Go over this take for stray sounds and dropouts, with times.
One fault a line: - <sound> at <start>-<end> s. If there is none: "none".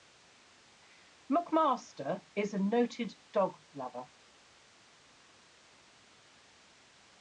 none